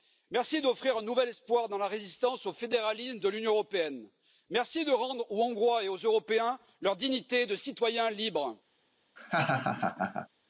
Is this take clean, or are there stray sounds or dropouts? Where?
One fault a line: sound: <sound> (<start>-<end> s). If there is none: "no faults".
sound: laugh (9.2-10.3 s)